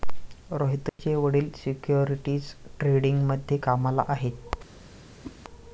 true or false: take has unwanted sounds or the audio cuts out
true